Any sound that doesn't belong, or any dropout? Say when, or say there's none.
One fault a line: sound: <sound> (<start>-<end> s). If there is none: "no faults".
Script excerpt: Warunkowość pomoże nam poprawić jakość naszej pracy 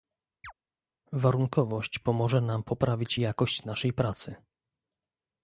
sound: chirp (0.4-0.5 s)